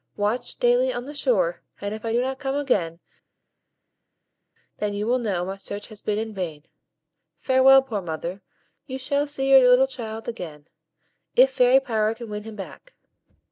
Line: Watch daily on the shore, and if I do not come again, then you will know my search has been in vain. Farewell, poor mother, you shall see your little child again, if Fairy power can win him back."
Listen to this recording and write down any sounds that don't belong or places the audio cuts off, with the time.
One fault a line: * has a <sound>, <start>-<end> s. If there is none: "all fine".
all fine